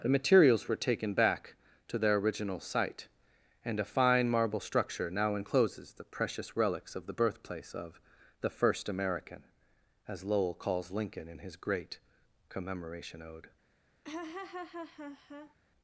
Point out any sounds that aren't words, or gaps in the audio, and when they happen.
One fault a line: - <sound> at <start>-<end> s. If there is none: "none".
- laugh at 14.0-15.6 s